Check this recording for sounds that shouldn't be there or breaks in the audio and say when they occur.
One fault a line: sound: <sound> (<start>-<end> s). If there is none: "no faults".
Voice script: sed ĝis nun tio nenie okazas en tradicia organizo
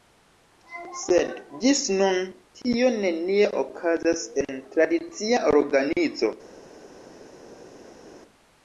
no faults